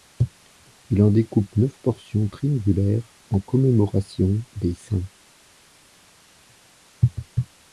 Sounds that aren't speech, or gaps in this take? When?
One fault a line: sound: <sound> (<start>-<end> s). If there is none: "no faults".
no faults